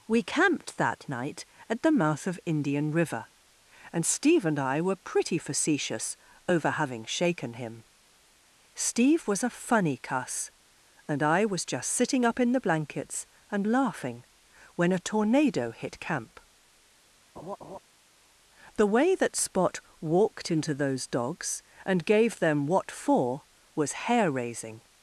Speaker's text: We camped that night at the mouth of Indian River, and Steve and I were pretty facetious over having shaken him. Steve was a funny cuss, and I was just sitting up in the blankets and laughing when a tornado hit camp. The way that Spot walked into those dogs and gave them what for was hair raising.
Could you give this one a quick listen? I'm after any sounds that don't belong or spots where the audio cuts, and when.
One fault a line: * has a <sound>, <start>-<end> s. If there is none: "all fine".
* has a laugh, 17.4-17.8 s